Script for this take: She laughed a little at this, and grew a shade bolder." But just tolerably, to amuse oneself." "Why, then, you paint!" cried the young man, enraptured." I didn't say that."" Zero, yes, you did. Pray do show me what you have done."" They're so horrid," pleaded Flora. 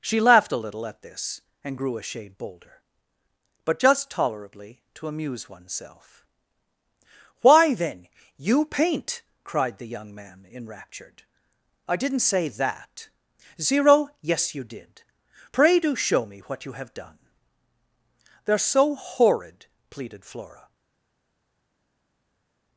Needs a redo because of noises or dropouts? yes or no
no